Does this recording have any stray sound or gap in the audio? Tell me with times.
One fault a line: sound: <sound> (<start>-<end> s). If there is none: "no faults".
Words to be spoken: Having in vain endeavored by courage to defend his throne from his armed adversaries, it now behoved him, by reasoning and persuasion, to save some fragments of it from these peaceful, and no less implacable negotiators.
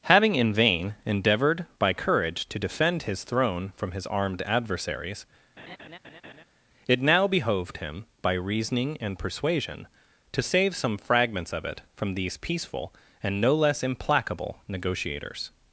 sound: laugh (5.6-6.4 s)